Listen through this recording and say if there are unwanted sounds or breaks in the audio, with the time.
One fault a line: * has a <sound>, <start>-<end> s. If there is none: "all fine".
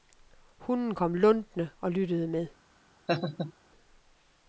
* has a laugh, 3.1-3.5 s